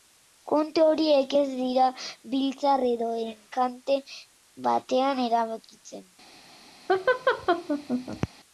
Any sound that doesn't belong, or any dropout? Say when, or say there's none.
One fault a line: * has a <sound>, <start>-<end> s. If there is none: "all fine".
* has a laugh, 6.9-8.3 s